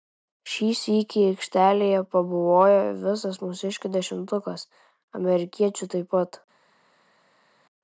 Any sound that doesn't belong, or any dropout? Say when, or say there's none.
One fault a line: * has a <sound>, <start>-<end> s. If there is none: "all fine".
all fine